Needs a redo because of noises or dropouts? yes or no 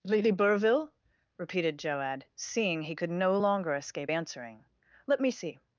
no